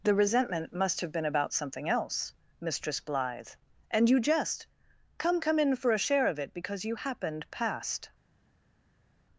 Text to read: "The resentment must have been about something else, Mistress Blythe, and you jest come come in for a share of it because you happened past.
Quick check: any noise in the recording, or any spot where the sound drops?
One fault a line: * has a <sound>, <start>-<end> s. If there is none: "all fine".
all fine